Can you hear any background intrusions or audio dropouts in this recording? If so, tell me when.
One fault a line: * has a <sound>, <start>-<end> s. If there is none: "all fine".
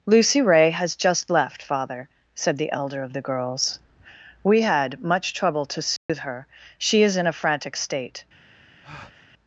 * has a dropout, 6.0-6.1 s
* has a breath, 8.8-9.3 s